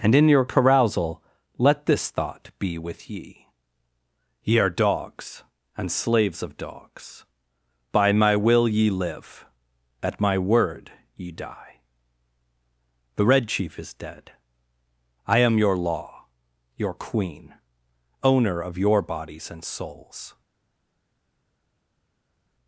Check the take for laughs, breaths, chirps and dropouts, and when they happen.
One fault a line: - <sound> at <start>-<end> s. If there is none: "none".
none